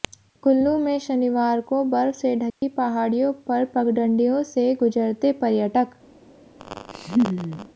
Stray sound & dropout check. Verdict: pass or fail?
fail